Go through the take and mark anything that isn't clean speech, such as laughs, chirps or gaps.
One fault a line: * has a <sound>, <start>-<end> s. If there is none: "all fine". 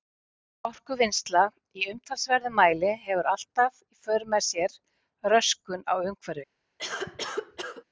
* has a cough, 6.8-7.8 s